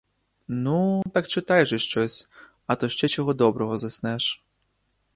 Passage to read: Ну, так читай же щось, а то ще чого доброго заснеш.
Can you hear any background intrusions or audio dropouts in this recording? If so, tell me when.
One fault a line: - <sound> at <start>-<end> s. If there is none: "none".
- dropout at 1.0-1.1 s